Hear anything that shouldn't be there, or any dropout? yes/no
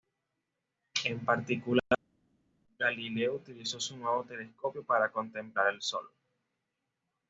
no